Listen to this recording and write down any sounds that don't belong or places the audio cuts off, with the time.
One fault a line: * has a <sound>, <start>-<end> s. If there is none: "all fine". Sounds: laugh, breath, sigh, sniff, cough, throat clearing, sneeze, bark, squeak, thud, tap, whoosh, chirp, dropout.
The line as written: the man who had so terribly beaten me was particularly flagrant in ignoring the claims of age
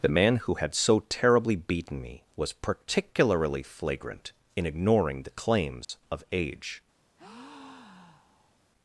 * has a dropout, 5.8-5.9 s
* has a breath, 7.2-8.6 s